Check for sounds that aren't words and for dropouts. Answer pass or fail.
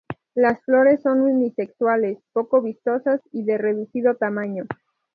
pass